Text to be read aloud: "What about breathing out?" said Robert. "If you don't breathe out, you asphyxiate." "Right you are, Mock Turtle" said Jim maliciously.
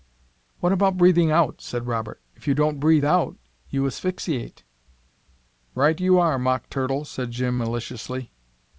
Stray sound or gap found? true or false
false